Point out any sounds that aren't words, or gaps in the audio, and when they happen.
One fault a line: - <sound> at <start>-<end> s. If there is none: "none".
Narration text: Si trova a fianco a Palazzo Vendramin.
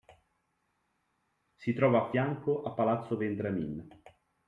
none